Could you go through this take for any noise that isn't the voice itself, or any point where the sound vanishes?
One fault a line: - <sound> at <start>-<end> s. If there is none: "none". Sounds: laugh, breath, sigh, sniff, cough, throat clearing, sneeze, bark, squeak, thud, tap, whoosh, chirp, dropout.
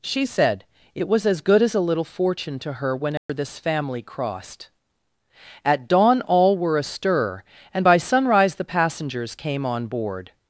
- dropout at 3.2-3.3 s